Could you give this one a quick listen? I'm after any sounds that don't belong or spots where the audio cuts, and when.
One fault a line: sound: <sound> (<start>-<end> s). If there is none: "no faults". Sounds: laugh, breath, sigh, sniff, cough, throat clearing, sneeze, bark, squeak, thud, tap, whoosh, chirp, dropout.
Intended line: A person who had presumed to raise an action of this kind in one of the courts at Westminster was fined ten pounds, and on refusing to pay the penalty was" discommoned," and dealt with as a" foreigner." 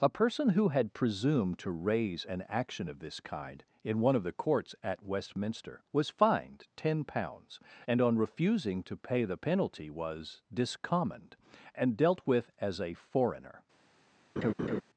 sound: laugh (14.4-14.8 s)